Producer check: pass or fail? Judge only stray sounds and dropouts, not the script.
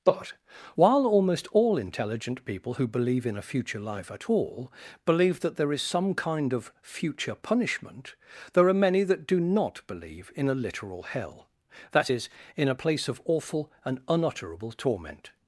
pass